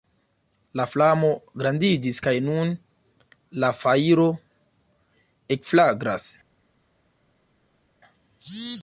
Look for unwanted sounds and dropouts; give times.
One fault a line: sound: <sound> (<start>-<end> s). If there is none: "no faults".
no faults